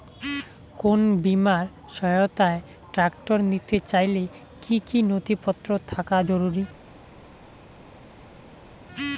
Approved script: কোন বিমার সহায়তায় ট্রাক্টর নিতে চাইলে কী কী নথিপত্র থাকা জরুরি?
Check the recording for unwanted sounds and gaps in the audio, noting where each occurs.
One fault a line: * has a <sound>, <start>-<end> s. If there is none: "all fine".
all fine